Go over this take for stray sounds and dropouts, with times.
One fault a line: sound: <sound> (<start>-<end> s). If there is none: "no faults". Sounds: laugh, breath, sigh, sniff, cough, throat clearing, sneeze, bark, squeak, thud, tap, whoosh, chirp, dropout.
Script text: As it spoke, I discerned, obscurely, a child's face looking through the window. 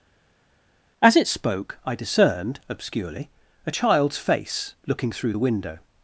no faults